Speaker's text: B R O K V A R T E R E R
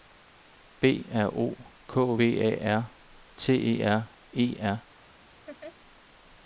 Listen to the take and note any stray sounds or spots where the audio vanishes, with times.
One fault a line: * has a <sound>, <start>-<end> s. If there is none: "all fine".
* has a laugh, 5.5-5.8 s